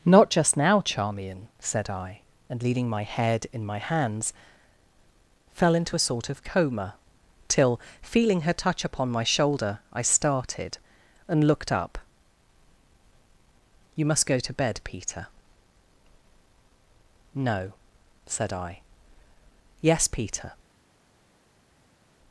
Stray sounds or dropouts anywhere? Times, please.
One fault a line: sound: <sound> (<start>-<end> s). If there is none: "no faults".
no faults